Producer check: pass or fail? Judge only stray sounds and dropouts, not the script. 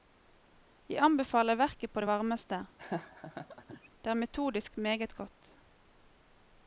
fail